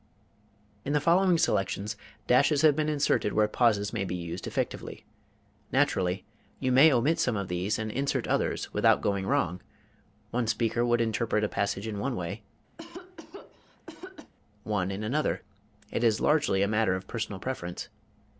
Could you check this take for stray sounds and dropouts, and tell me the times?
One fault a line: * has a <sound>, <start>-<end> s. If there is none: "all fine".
* has a cough, 12.8-14.3 s